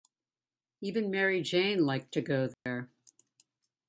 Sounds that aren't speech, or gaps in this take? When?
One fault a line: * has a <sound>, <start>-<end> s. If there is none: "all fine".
* has a dropout, 2.5-2.7 s